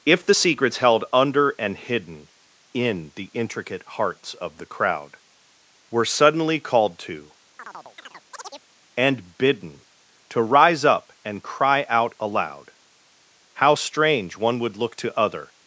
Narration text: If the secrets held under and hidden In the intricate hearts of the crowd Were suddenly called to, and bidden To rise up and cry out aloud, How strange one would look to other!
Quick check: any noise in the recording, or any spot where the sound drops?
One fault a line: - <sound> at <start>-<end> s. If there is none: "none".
- chirp at 7.6-8.7 s